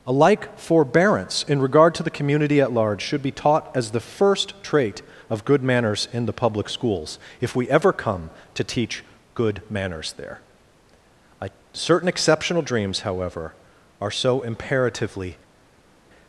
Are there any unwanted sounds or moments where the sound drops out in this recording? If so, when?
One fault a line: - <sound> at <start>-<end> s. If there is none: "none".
none